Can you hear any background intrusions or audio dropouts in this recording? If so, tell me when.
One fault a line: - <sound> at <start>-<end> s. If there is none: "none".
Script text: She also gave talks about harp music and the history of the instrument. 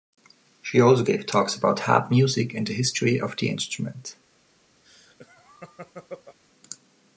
- laugh at 4.8-6.4 s